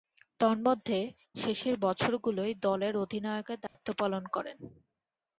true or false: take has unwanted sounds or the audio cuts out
true